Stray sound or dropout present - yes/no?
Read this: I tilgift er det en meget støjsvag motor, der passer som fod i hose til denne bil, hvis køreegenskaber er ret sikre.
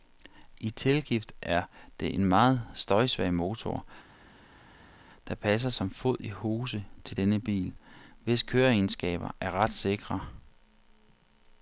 no